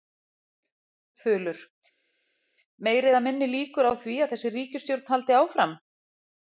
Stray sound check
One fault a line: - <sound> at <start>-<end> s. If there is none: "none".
none